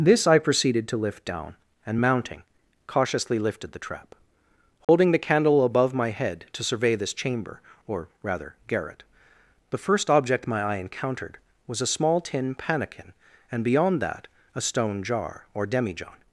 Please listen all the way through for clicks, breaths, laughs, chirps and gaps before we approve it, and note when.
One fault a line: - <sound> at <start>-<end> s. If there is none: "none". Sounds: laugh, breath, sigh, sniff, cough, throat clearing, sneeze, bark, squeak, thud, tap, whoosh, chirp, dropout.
- dropout at 4.8-4.9 s